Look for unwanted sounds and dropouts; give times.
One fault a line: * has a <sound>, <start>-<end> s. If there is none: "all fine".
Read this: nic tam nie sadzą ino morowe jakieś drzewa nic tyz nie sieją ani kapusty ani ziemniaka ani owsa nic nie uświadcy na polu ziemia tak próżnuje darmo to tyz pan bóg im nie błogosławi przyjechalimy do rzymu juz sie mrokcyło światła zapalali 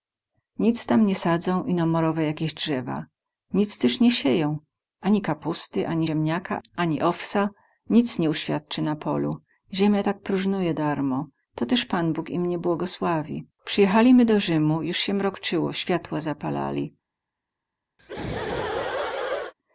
* has a laugh, 18.0-19.5 s